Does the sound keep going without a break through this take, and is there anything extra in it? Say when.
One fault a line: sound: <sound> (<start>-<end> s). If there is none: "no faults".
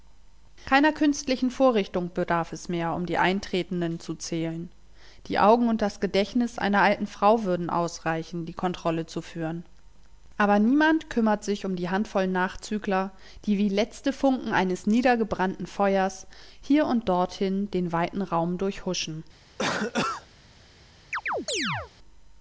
sound: cough (19.6-20.3 s)
sound: chirp (21.1-21.9 s)